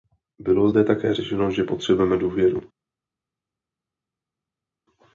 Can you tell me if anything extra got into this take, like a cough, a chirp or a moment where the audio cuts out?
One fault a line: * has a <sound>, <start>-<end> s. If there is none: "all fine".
all fine